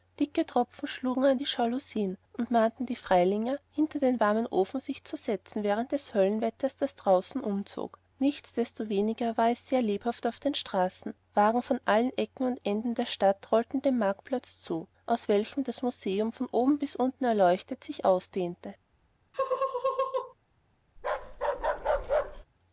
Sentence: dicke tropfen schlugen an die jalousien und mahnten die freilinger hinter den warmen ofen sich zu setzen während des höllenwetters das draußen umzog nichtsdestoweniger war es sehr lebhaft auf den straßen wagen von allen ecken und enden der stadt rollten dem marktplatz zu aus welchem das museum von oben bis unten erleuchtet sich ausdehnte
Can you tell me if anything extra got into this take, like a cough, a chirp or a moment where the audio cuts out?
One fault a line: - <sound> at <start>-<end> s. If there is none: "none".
- laugh at 19.3-20.3 s
- bark at 21.0-22.4 s